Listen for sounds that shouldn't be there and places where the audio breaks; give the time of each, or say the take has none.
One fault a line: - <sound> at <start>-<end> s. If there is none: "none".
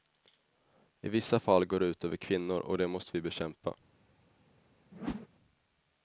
- whoosh at 4.9-5.3 s